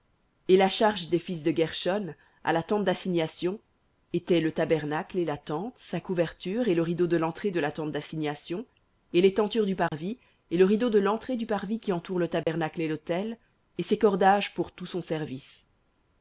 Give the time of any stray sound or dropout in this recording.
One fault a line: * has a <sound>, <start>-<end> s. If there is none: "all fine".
* has a dropout, 9.9-9.9 s
* has a dropout, 12.4-12.5 s